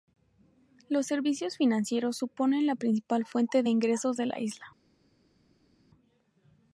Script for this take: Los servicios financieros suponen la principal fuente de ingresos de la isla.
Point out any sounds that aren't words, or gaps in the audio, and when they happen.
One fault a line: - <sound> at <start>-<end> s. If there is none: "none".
none